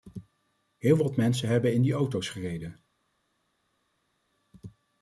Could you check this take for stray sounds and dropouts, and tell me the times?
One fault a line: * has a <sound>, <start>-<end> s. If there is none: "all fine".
all fine